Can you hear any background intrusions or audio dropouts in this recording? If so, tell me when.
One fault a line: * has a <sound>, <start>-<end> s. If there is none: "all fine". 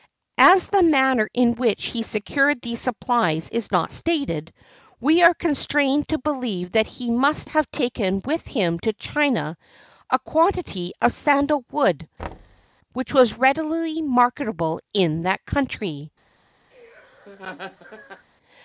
* has a thud, 12.2-12.7 s
* has a laugh, 16.7-18.3 s